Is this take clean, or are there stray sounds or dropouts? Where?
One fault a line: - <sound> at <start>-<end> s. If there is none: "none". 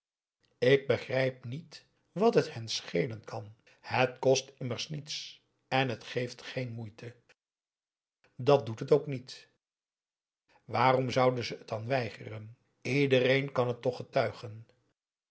none